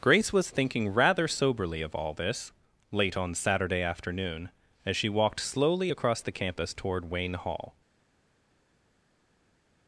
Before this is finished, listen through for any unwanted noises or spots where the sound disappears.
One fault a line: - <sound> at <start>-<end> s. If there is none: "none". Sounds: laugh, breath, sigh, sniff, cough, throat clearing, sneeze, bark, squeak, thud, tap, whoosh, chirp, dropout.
none